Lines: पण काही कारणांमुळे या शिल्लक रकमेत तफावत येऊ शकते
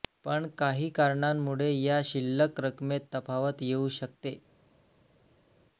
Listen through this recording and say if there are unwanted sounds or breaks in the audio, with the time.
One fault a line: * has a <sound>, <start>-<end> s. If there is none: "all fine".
all fine